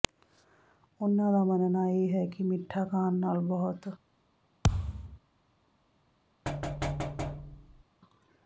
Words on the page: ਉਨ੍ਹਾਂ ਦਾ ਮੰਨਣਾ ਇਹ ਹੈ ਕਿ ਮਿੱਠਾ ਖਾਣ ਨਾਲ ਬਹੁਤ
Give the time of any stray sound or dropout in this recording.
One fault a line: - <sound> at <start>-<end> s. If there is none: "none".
- thud at 4.6-5.2 s
- thud at 6.5-7.8 s